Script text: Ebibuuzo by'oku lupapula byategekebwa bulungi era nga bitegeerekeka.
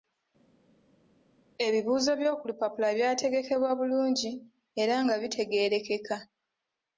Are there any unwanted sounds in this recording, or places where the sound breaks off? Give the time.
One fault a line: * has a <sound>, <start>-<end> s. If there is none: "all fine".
all fine